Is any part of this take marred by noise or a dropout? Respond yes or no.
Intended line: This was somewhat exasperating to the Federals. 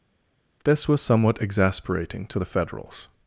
no